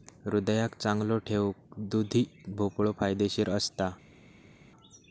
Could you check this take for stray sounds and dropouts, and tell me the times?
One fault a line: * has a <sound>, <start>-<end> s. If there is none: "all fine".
all fine